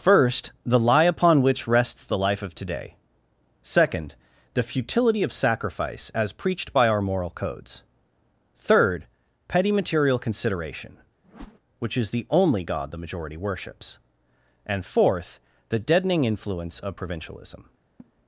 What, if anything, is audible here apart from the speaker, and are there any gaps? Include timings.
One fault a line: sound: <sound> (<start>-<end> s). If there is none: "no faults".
sound: whoosh (11.2-11.6 s)
sound: laugh (18.0-18.1 s)